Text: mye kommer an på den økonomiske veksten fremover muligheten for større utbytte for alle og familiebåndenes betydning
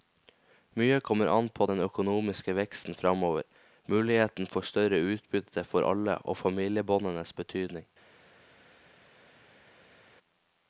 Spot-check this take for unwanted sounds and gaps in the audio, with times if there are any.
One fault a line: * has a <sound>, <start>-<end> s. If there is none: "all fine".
all fine